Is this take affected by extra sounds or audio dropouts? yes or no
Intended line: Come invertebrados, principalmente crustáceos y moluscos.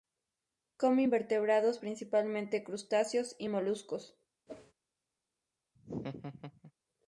yes